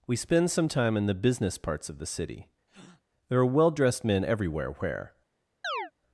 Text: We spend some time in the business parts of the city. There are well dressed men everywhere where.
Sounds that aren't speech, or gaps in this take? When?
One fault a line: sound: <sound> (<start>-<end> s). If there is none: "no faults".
sound: breath (2.7-3.0 s)
sound: chirp (5.6-5.9 s)